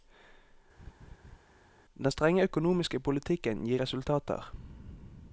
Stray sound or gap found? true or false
true